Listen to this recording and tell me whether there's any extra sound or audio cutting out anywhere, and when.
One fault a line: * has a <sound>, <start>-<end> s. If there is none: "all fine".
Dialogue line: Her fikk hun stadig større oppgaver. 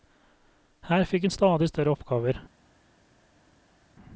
all fine